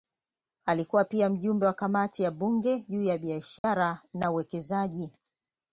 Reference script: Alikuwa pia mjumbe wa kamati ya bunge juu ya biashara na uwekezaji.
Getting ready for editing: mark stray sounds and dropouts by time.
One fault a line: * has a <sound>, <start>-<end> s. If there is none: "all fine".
* has a dropout, 3.6-3.6 s